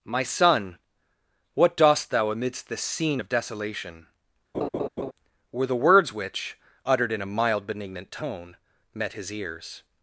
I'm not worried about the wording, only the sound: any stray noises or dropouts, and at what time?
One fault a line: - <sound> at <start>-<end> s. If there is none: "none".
- laugh at 4.5-5.1 s